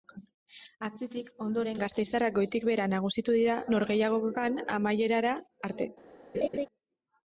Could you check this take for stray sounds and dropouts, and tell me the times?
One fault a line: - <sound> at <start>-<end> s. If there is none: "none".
- laugh at 6.3-6.7 s